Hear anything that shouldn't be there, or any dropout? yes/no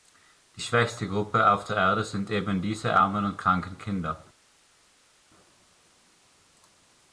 no